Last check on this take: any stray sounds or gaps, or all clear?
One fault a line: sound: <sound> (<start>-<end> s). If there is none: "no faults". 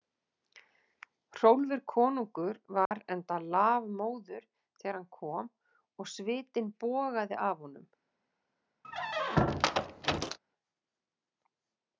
sound: dropout (2.9-2.9 s)
sound: squeak (8.8-10.4 s)